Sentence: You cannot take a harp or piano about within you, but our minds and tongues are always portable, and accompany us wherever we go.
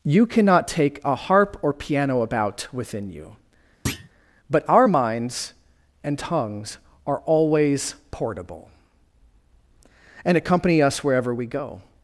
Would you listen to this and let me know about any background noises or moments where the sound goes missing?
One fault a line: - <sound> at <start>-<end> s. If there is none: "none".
- thud at 3.9-4.1 s